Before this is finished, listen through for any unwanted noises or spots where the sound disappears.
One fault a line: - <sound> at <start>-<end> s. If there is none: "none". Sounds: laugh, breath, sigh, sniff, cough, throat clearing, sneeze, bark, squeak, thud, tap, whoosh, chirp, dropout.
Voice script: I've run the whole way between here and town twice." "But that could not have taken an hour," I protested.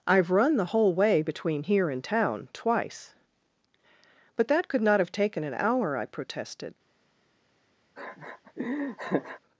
- laugh at 8.0-9.4 s